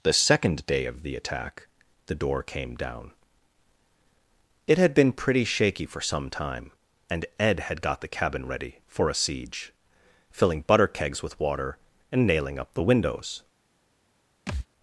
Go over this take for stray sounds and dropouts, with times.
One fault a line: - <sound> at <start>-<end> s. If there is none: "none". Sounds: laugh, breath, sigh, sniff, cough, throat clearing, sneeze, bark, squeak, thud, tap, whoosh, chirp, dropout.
- thud at 14.5-14.7 s